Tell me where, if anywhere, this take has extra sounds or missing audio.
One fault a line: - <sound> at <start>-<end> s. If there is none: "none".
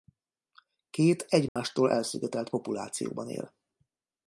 - dropout at 1.5-1.6 s